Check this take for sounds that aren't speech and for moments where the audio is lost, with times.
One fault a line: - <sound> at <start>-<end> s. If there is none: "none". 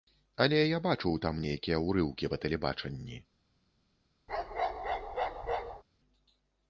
- bark at 4.3-5.8 s